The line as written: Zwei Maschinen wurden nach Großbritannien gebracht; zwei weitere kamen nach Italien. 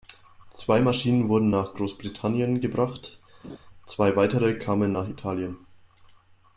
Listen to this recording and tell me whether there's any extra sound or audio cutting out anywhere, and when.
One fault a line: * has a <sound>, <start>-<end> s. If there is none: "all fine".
* has a laugh, 3.4-3.6 s